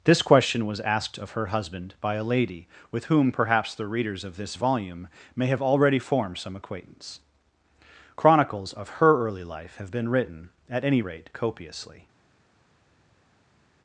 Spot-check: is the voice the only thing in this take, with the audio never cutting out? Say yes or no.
yes